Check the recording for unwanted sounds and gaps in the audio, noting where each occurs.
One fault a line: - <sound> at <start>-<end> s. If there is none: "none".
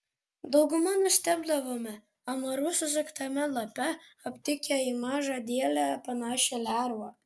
none